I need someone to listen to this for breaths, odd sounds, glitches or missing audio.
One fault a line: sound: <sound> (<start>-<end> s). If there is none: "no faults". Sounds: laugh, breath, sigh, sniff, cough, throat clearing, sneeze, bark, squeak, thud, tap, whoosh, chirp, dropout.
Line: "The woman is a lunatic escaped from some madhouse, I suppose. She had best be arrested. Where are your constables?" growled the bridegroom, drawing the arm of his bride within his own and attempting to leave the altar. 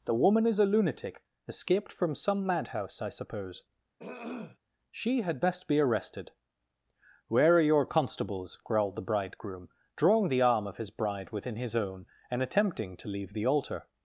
sound: throat clearing (4.0-4.6 s)